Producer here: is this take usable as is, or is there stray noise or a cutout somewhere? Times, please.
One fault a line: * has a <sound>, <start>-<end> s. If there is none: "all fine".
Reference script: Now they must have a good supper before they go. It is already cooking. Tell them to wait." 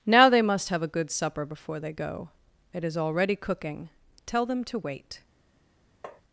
* has a tap, 6.0-6.2 s